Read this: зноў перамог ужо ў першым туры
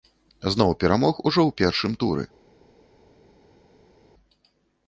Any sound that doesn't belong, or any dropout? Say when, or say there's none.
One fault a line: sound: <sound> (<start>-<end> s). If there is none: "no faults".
no faults